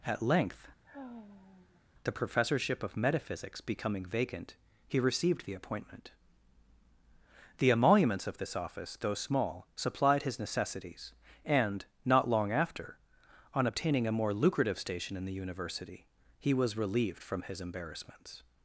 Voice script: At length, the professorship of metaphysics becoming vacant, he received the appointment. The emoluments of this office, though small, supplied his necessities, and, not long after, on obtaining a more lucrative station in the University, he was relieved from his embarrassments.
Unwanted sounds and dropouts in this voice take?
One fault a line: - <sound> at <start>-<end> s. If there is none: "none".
- sigh at 0.8-1.8 s